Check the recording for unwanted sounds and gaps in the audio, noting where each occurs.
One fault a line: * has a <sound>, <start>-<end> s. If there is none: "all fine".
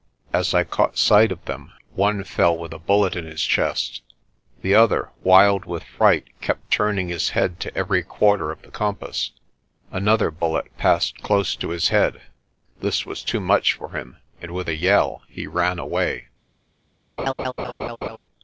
* has a laugh, 17.2-18.2 s